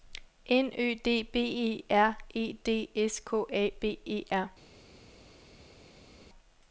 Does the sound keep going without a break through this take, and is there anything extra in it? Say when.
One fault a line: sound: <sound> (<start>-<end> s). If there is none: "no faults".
no faults